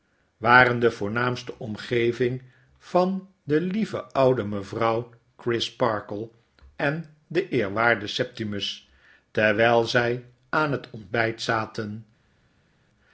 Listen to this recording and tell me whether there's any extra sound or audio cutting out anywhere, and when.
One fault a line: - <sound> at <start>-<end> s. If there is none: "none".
none